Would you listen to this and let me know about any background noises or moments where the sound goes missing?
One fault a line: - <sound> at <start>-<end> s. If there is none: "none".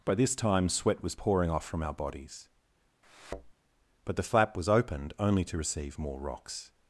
- thud at 3.0-3.5 s